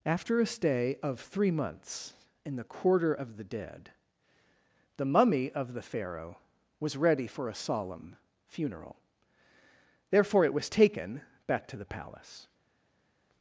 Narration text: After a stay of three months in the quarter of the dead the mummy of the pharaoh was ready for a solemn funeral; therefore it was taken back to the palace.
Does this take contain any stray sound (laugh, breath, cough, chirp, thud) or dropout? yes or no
no